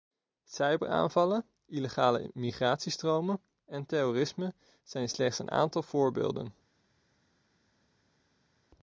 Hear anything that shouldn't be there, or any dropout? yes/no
no